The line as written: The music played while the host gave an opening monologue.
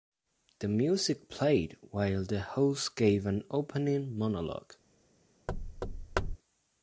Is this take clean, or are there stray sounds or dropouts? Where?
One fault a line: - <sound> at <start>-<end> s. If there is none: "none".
- thud at 5.5-6.4 s